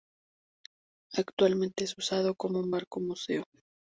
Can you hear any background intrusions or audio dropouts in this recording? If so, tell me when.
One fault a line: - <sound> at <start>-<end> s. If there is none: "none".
none